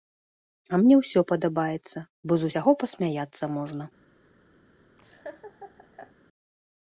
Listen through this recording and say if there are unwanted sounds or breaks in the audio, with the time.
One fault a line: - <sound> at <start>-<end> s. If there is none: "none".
- laugh at 5.0-6.1 s